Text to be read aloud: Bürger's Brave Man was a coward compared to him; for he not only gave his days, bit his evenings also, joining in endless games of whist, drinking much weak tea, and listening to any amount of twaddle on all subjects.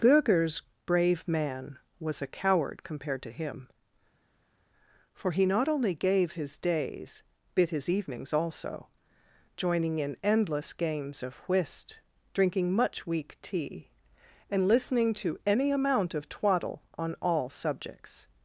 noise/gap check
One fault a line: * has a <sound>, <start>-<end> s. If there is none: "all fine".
all fine